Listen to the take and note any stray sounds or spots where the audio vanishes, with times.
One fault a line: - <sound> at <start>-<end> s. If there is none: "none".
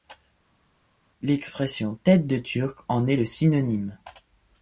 none